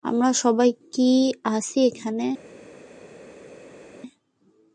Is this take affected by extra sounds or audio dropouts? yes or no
no